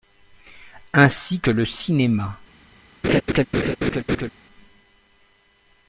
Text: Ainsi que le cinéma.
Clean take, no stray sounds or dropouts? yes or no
no